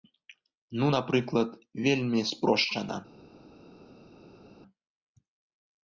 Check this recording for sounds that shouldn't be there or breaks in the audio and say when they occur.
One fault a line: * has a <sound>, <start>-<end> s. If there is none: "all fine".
all fine